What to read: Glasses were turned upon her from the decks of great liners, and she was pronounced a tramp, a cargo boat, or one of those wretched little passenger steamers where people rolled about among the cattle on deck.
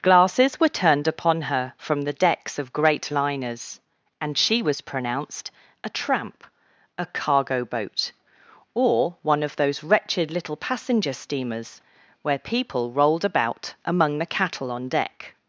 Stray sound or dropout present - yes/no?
no